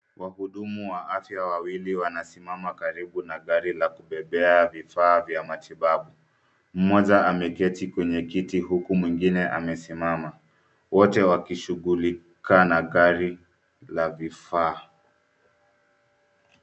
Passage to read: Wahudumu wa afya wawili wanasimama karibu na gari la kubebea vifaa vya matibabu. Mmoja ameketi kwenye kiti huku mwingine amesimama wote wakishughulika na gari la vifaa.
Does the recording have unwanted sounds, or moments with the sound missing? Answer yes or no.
no